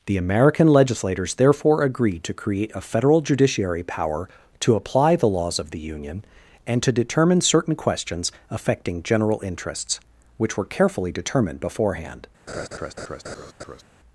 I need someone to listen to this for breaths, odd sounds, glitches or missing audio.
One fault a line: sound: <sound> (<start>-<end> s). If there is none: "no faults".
sound: laugh (12.5-13.8 s)